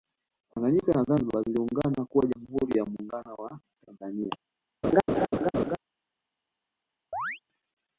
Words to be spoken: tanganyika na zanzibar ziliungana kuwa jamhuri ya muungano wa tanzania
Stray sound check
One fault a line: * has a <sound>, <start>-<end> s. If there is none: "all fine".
* has a laugh, 4.8-5.8 s
* has a chirp, 7.1-7.4 s